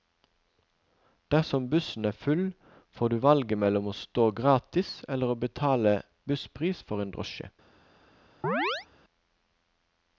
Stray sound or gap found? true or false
true